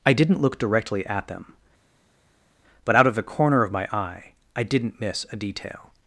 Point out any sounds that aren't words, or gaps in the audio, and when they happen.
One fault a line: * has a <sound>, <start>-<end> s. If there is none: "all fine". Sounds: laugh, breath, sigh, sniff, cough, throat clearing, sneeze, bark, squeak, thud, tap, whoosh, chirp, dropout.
all fine